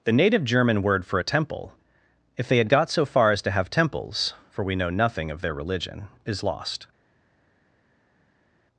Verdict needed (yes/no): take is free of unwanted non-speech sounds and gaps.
yes